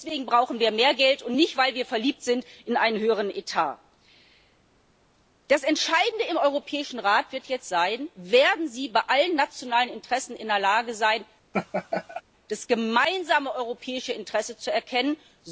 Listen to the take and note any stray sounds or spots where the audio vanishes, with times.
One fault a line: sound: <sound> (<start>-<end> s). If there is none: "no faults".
sound: laugh (11.5-12.2 s)